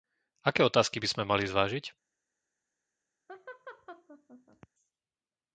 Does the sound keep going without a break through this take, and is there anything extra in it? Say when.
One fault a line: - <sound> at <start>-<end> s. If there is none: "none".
- laugh at 3.3-4.7 s